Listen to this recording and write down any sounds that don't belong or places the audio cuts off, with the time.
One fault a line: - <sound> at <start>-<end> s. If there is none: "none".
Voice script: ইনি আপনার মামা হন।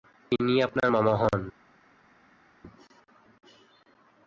none